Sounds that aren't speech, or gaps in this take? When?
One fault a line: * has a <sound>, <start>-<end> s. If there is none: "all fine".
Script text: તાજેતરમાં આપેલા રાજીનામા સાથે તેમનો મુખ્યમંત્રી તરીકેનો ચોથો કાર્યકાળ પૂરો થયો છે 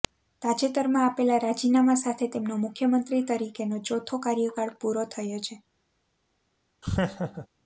* has a laugh, 6.8-7.5 s